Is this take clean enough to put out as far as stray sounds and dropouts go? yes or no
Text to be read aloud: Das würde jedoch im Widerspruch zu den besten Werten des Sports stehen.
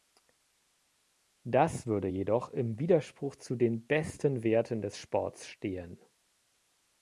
yes